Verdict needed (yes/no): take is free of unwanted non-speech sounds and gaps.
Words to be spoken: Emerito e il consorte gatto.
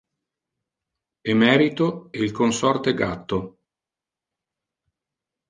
yes